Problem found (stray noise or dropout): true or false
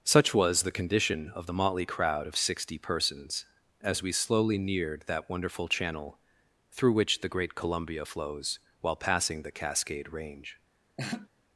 true